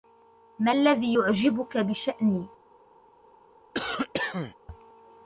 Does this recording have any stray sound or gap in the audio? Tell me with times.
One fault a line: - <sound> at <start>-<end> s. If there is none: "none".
- cough at 3.7-4.6 s